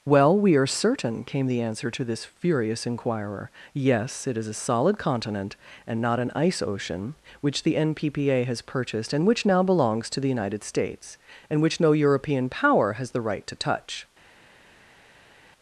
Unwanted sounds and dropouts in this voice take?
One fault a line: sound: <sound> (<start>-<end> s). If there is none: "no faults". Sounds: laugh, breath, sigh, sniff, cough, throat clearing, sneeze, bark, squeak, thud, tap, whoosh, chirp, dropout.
no faults